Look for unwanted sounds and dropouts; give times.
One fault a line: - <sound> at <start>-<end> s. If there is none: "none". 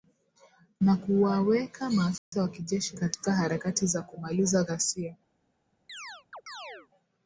- dropout at 2.2-2.3 s
- chirp at 5.9-6.9 s